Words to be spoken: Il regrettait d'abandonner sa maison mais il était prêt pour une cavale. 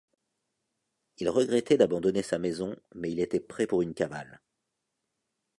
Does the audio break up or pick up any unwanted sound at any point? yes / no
no